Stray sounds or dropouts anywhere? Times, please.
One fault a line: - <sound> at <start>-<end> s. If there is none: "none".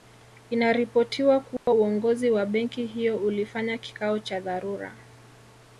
- dropout at 1.6-1.7 s